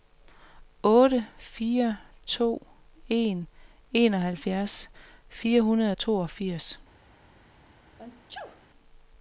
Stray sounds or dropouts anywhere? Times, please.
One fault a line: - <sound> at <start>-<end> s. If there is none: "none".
- sneeze at 8.0-8.6 s